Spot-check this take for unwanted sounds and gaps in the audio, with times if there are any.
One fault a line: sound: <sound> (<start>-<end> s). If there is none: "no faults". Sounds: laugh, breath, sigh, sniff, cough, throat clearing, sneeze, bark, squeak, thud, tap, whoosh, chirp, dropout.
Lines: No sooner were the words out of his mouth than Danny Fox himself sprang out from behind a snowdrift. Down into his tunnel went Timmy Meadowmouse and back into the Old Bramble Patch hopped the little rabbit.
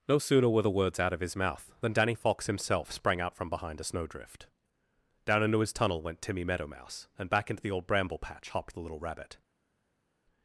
no faults